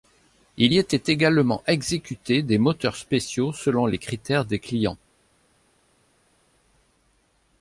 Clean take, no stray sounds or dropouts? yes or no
yes